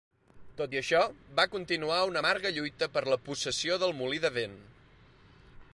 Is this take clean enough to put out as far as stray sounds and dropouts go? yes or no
yes